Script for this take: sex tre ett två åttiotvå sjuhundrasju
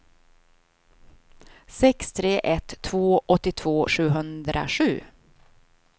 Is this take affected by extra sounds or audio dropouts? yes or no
no